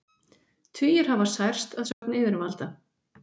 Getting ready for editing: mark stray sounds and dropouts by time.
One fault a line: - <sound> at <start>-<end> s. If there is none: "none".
- dropout at 1.9-2.0 s